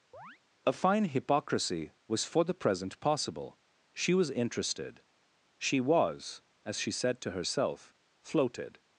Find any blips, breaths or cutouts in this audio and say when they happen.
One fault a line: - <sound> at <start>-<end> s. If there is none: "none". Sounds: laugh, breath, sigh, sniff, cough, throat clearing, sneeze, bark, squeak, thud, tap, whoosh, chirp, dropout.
- chirp at 0.1-0.4 s